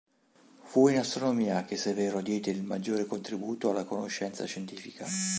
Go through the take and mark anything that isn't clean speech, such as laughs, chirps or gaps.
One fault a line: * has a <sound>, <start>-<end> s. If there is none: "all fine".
all fine